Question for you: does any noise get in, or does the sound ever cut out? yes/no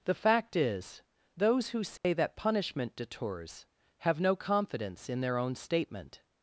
yes